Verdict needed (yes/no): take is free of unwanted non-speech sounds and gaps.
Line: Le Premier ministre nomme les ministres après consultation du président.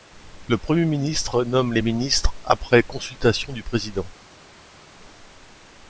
yes